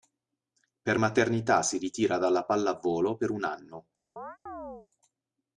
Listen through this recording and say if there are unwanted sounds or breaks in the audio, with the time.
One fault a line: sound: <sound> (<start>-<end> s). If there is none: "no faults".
sound: chirp (4.2-4.9 s)